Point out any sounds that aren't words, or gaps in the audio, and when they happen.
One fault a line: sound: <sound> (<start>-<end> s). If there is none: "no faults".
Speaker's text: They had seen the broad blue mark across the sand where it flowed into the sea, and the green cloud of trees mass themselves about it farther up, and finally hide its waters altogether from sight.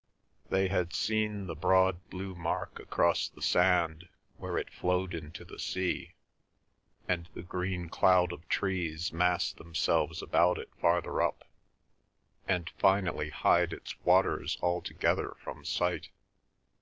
no faults